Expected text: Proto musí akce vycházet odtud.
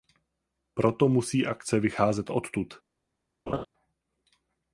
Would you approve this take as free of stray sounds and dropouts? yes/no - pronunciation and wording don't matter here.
no